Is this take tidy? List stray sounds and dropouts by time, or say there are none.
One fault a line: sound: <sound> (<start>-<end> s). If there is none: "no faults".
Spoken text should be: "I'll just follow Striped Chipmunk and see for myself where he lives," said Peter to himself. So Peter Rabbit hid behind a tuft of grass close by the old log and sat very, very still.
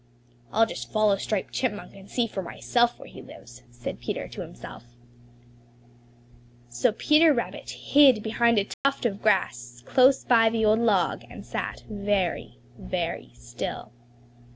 sound: dropout (8.7-8.8 s)